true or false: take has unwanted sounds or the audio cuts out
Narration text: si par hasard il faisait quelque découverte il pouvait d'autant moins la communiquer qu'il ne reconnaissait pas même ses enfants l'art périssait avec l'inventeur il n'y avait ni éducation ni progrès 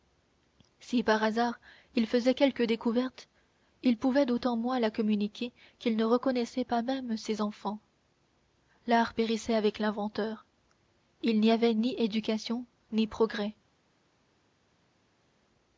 false